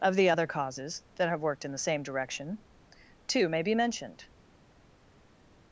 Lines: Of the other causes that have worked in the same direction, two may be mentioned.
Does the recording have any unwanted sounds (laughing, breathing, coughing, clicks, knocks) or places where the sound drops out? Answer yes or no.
no